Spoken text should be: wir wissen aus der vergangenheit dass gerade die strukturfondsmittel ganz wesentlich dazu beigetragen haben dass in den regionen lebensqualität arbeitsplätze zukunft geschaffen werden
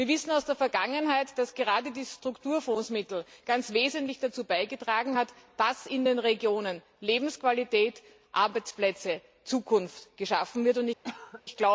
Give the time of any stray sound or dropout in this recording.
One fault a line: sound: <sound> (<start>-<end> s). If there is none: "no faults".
sound: cough (11.0-11.4 s)